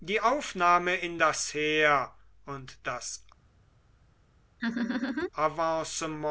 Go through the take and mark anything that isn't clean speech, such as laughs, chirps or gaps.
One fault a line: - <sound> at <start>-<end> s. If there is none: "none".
- laugh at 4.6-5.3 s